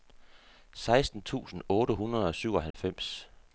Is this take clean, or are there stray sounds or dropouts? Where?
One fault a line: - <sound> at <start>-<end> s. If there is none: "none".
- dropout at 2.7-2.7 s